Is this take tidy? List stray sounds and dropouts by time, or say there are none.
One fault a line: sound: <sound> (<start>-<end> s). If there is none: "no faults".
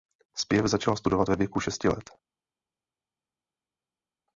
no faults